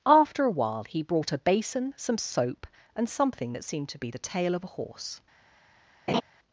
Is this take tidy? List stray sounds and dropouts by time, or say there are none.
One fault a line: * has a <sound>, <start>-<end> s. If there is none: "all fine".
* has a laugh, 6.1-6.2 s